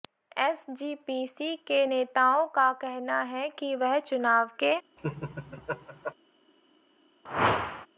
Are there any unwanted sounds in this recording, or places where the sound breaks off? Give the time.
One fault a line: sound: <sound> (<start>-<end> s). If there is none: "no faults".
sound: laugh (5.0-6.1 s)
sound: whoosh (7.2-7.9 s)